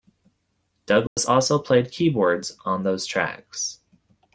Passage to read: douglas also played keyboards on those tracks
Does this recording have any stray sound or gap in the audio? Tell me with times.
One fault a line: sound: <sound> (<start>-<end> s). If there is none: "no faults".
sound: dropout (1.1-1.2 s)